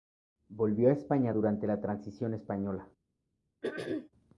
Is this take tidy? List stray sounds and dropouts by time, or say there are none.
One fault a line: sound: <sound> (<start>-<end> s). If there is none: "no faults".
sound: throat clearing (3.6-4.1 s)